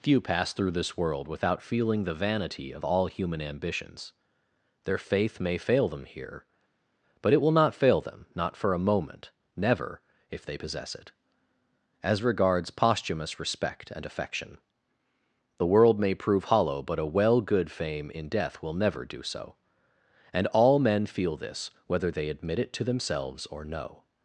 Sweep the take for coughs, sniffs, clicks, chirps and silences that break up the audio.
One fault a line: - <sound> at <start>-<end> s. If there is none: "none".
none